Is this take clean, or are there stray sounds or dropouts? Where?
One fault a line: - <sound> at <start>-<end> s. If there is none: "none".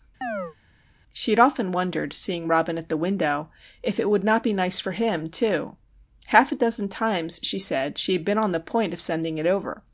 - chirp at 0.2-0.6 s